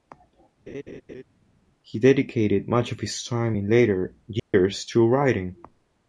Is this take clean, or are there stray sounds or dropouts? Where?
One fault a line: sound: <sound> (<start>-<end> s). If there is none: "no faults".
sound: laugh (0.7-1.2 s)
sound: dropout (4.4-4.5 s)